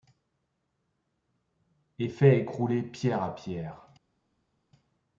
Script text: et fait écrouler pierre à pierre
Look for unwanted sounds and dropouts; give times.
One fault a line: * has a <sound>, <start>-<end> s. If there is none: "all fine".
all fine